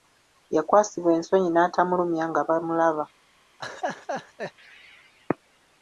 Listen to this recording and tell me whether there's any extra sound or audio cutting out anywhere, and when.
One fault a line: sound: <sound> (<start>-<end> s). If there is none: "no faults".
sound: laugh (3.6-4.5 s)